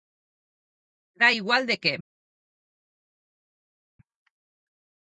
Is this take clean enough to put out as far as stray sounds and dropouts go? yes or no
yes